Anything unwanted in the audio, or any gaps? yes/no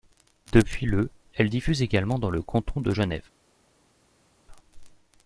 no